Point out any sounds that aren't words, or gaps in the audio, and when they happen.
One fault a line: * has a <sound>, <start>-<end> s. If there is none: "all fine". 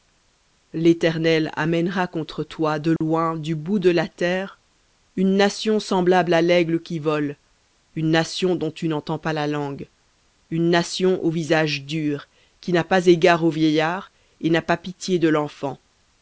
* has a dropout, 3.0-3.0 s